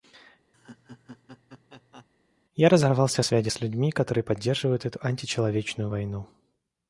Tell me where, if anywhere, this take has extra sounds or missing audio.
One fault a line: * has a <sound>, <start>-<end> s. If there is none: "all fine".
* has a laugh, 0.5-2.1 s